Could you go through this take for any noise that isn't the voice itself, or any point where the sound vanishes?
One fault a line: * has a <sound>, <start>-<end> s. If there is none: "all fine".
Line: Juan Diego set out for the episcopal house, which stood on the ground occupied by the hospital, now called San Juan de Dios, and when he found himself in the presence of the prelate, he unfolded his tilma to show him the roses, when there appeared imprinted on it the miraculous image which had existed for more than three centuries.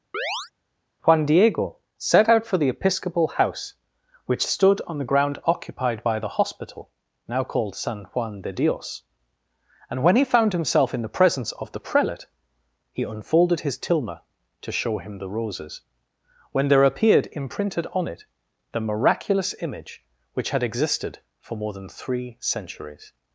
* has a chirp, 0.1-0.5 s